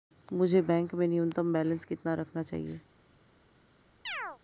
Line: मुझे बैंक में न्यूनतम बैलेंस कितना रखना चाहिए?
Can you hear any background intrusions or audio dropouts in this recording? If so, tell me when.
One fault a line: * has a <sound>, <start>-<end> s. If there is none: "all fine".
* has a chirp, 4.1-4.4 s